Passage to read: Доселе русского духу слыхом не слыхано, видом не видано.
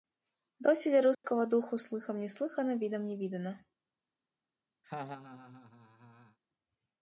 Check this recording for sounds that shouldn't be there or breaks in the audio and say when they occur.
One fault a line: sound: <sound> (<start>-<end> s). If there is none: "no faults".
sound: dropout (1.1-1.2 s)
sound: laugh (4.8-6.4 s)